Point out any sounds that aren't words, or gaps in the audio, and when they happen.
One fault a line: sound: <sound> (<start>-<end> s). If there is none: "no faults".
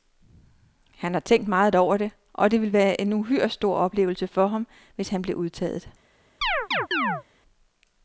sound: chirp (6.4-7.2 s)